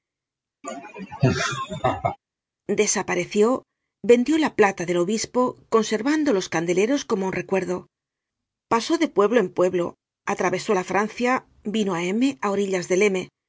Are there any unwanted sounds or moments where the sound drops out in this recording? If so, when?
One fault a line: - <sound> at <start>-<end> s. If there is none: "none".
- laugh at 0.6-2.2 s